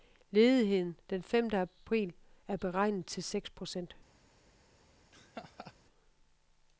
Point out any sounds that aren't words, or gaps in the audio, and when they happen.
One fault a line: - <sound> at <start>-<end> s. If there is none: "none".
- laugh at 5.1-5.7 s